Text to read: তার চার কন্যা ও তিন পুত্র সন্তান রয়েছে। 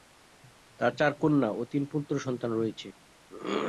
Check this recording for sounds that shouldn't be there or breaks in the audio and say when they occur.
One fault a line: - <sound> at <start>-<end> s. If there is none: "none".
none